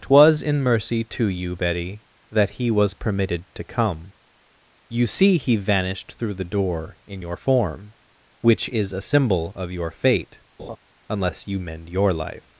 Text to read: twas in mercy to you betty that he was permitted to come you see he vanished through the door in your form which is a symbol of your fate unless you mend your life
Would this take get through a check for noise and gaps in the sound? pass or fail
fail